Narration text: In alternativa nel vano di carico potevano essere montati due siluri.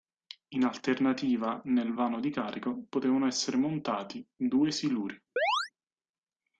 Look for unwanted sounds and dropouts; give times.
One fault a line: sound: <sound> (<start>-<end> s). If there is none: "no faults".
sound: chirp (5.4-5.7 s)